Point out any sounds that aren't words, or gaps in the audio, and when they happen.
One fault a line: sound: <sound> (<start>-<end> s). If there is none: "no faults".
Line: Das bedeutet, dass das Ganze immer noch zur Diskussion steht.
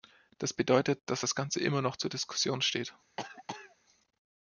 sound: cough (3.2-3.8 s)